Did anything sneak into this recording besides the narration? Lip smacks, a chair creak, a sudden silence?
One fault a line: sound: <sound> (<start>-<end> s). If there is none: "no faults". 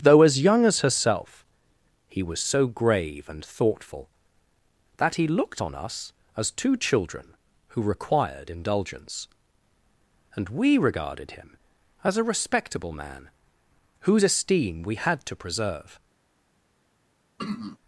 sound: throat clearing (17.4-17.8 s)